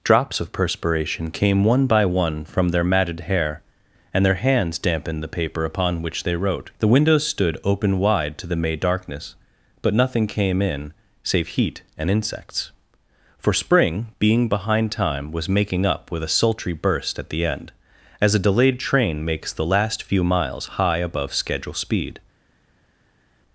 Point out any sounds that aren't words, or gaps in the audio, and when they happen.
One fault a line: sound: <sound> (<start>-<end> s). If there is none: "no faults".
no faults